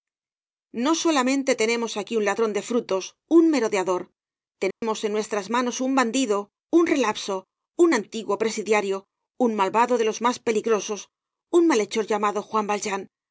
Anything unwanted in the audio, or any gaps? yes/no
yes